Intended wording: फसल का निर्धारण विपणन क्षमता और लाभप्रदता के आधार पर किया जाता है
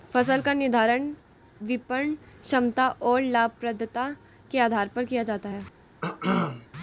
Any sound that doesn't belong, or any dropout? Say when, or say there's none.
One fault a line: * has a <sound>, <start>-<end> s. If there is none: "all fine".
* has a cough, 6.0-6.7 s